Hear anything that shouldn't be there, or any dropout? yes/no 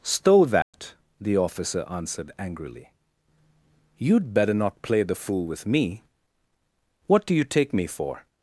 yes